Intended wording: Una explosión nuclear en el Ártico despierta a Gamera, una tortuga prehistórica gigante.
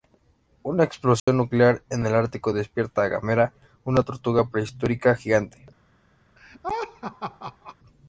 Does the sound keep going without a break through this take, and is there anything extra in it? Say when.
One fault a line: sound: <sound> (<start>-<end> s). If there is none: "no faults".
sound: dropout (1.2-1.3 s)
sound: laugh (6.4-7.8 s)